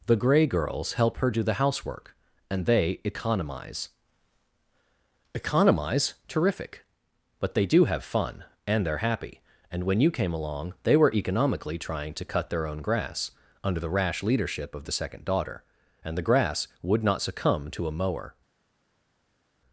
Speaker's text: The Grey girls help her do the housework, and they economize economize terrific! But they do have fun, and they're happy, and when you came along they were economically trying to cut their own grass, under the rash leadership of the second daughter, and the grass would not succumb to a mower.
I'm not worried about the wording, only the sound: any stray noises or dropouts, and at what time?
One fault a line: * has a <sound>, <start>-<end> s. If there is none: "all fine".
all fine